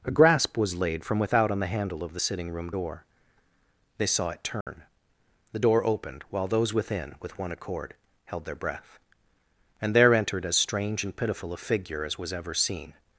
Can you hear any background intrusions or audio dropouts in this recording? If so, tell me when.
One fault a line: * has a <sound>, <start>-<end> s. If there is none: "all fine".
* has a dropout, 4.6-4.7 s